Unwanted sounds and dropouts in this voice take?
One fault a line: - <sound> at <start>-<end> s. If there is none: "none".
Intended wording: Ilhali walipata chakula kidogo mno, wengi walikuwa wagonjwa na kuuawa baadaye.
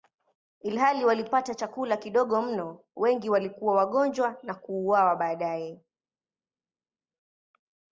none